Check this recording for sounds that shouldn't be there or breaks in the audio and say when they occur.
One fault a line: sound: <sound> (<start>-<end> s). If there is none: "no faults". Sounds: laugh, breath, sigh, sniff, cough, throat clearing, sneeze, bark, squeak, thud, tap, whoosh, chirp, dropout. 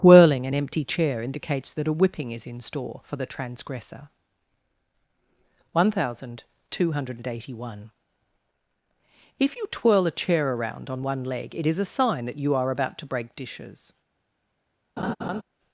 sound: laugh (15.0-15.4 s)